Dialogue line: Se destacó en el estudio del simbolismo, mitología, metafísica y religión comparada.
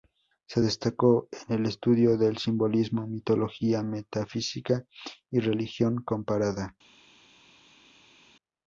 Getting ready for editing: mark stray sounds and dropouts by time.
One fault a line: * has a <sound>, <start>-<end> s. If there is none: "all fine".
all fine